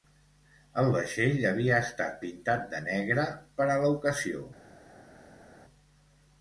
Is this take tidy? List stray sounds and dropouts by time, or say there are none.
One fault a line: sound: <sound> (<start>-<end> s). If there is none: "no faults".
no faults